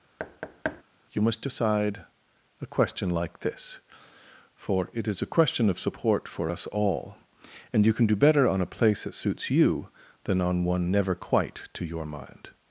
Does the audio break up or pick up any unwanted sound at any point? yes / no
yes